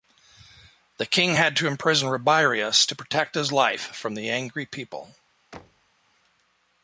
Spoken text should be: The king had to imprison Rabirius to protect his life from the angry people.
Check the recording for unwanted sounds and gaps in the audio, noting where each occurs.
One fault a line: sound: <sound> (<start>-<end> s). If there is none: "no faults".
sound: thud (5.5-5.9 s)